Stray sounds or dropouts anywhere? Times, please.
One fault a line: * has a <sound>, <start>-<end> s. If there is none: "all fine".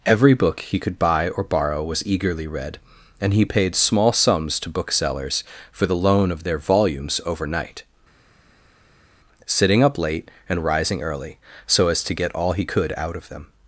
all fine